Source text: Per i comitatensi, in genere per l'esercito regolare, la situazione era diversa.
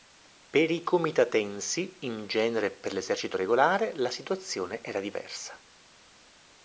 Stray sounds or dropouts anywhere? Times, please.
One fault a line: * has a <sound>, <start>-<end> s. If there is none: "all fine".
all fine